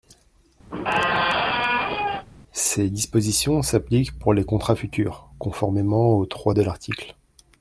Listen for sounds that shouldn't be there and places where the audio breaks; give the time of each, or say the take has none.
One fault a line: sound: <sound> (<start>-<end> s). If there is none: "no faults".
sound: squeak (0.7-2.3 s)